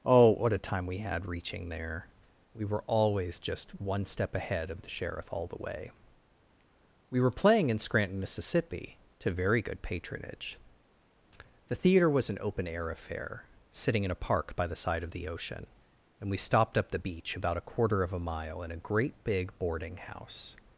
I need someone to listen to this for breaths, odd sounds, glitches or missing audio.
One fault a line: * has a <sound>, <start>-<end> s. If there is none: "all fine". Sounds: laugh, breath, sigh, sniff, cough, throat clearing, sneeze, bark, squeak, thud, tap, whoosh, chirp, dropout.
all fine